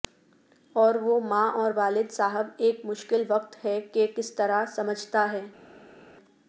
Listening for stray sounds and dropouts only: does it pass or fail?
pass